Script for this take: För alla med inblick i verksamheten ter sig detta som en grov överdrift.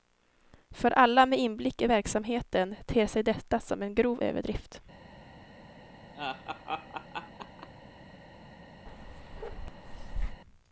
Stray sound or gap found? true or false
true